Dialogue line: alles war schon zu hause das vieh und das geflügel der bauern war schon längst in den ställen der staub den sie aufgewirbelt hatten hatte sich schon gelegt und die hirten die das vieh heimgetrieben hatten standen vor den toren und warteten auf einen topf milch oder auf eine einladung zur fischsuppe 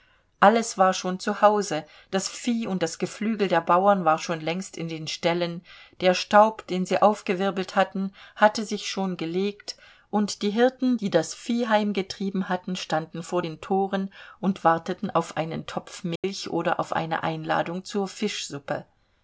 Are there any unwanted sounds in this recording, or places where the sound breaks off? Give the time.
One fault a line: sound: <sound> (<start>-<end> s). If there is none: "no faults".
sound: dropout (16.2-16.2 s)